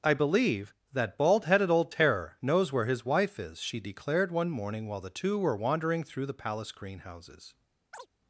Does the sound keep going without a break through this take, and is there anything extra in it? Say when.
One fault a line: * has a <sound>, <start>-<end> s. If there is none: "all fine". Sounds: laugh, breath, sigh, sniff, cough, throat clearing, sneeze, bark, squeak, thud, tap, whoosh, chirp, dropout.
* has a chirp, 7.9-8.1 s